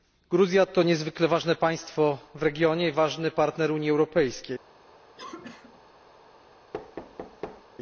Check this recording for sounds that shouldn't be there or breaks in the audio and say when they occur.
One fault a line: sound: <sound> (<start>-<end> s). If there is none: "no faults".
sound: cough (5.1-5.8 s)
sound: thud (6.7-7.6 s)